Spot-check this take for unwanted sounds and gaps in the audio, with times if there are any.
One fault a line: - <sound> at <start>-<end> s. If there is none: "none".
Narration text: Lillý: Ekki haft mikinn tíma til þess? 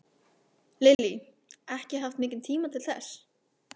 - dropout at 0.9-1.0 s